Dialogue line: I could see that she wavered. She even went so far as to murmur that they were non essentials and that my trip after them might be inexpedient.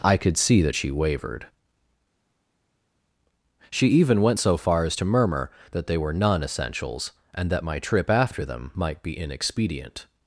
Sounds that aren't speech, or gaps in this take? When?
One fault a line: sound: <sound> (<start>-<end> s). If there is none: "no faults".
no faults